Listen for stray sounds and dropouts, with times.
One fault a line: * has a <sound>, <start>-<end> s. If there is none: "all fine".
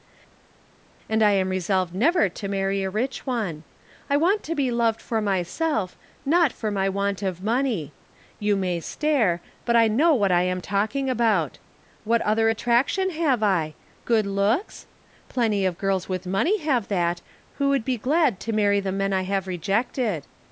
all fine